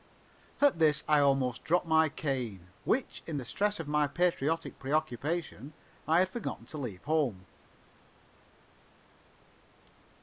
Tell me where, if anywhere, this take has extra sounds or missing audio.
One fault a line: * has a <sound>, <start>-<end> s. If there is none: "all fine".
all fine